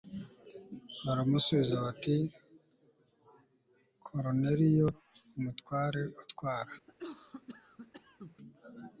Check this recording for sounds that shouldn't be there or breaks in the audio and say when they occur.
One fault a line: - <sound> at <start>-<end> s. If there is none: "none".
- cough at 6.9-8.4 s